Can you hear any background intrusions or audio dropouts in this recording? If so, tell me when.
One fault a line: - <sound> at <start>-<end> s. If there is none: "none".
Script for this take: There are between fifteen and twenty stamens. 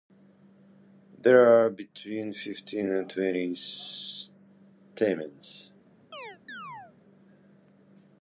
- chirp at 6.1-6.9 s